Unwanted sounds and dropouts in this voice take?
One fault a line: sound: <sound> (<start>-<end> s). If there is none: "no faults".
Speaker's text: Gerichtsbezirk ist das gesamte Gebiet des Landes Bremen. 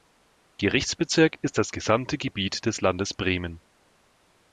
no faults